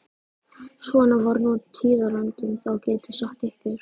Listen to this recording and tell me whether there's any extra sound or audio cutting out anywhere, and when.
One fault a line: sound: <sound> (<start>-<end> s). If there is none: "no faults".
no faults